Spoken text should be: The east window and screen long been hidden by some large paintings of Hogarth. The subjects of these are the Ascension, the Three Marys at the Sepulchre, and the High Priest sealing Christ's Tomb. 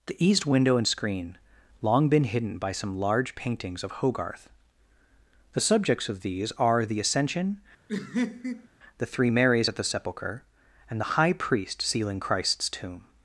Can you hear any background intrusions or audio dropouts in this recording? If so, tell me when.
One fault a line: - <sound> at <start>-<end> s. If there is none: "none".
- laugh at 7.9-8.7 s